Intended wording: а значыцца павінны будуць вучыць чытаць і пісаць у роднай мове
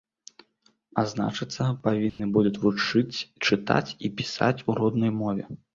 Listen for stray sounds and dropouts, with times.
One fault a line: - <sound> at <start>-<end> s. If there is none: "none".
- dropout at 2.1-2.2 s